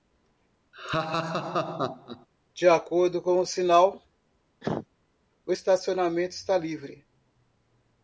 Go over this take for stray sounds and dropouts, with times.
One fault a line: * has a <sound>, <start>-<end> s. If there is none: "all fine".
* has a laugh, 0.7-2.3 s
* has a cough, 4.6-4.9 s